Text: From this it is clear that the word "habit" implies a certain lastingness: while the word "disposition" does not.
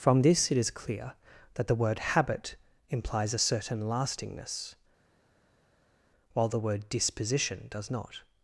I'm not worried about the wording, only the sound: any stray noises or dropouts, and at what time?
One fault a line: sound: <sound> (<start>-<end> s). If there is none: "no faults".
no faults